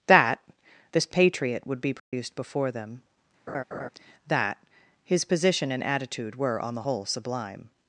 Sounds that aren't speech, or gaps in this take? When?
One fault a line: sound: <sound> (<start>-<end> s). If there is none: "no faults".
sound: dropout (2.0-2.1 s)
sound: laugh (3.5-3.9 s)